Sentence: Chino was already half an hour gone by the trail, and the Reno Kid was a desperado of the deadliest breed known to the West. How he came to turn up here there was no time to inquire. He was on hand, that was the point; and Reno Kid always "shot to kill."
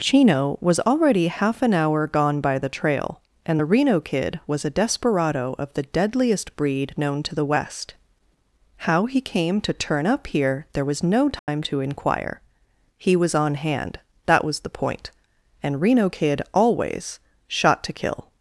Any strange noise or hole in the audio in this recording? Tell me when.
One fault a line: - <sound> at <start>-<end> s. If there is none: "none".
- dropout at 11.4-11.5 s